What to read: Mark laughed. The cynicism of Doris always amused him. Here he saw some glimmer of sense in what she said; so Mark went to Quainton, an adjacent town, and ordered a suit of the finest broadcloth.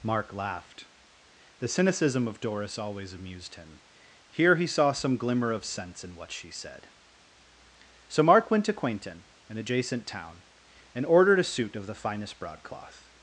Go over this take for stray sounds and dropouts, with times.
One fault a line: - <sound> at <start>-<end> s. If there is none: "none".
none